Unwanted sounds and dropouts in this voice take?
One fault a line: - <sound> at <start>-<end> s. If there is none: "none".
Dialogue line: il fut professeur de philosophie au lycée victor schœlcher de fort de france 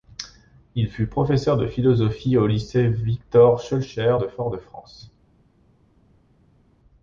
none